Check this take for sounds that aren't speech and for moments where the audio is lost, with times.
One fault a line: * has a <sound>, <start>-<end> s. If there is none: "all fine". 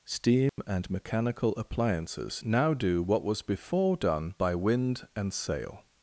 * has a dropout, 0.5-0.6 s